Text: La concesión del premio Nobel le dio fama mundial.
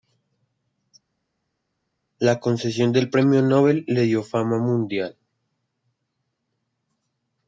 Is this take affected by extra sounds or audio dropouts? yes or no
no